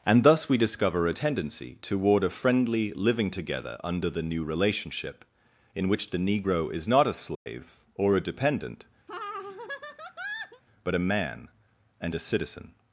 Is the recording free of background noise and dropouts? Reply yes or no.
no